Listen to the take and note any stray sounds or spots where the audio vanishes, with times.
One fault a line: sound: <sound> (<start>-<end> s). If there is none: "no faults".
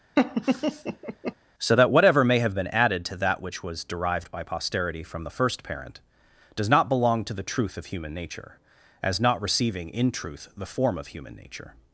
sound: laugh (0.2-1.3 s)